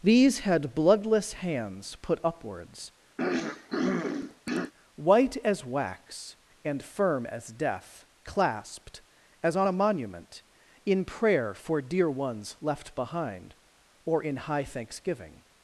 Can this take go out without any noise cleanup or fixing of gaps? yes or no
no